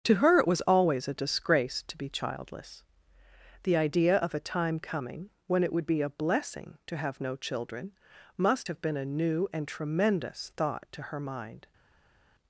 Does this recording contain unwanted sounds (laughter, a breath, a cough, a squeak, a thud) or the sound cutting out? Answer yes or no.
no